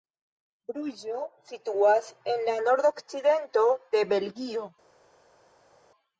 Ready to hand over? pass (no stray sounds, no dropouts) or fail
pass